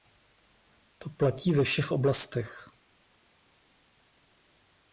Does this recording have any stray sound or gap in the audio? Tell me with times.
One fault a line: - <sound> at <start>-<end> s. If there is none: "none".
none